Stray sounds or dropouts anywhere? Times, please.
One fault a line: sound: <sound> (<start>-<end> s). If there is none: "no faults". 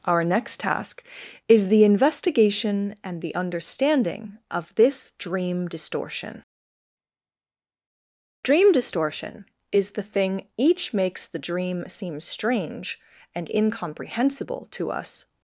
no faults